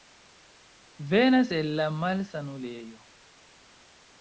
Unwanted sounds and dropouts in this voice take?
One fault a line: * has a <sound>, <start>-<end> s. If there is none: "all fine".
all fine